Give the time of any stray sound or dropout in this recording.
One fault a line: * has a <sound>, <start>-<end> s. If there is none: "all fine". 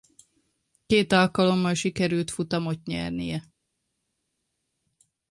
all fine